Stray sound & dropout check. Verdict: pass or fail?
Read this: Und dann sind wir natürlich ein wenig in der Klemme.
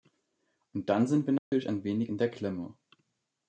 fail